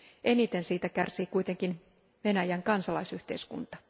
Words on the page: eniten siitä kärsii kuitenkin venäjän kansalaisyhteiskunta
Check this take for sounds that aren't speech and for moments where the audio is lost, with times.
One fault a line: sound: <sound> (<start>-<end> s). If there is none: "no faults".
no faults